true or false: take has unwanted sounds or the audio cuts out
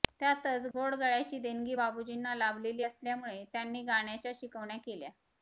true